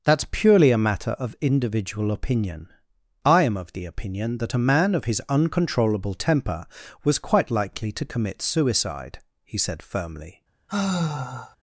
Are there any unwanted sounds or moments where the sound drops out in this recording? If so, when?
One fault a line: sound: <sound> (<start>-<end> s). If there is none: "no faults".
sound: sigh (10.7-11.6 s)